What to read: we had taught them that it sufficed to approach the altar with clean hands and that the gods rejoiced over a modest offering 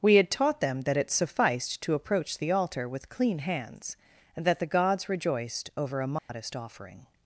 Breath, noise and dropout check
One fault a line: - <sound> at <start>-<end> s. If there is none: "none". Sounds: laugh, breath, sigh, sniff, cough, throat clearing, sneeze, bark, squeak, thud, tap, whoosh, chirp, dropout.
- dropout at 6.2-6.3 s